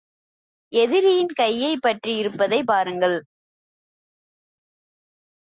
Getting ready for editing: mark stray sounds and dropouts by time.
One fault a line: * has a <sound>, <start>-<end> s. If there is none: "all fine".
all fine